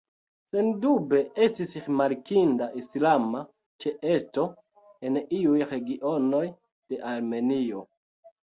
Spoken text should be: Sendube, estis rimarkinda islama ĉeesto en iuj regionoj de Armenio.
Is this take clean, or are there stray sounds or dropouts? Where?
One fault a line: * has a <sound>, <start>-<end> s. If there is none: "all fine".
all fine